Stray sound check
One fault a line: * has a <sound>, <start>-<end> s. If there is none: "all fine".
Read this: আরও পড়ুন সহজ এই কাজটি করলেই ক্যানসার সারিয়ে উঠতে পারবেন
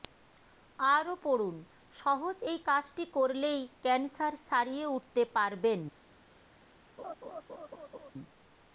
* has a laugh, 7.0-8.1 s